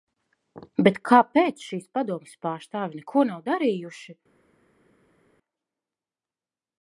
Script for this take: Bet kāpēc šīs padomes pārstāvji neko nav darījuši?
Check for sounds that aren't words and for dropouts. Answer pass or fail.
pass